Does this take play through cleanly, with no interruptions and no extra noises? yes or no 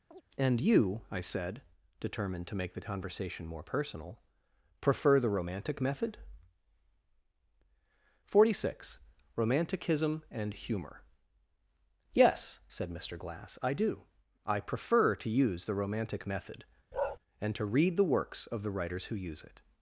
no